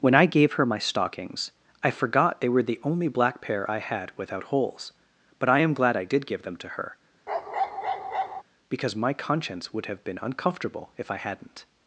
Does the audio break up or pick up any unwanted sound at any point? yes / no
yes